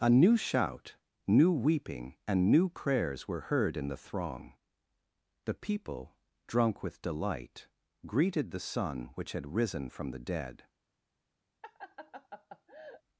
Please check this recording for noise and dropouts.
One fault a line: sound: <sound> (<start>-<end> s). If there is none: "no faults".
sound: laugh (11.6-13.0 s)